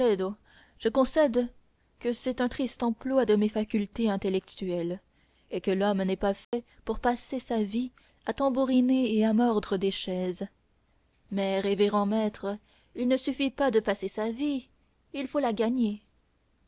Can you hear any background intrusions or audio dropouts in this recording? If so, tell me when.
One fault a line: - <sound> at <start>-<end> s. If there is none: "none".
- dropout at 6.4-6.5 s